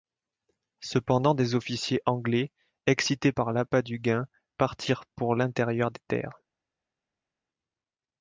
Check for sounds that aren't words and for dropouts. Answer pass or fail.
pass